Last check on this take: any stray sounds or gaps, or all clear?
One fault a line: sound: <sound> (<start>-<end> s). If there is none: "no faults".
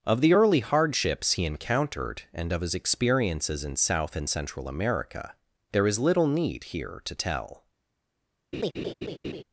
sound: laugh (8.5-9.4 s)